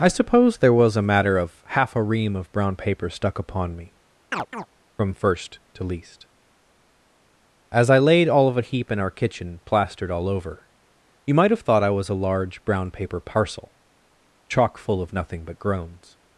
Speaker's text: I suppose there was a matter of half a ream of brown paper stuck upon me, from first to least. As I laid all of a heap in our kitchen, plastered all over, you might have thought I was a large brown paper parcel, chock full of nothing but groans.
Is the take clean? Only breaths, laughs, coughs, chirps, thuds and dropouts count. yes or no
no